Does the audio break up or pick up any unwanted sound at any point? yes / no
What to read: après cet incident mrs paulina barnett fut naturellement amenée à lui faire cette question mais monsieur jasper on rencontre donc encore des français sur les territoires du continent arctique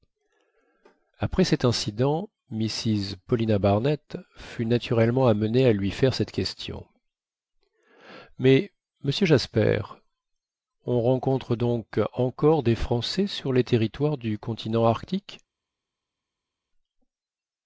no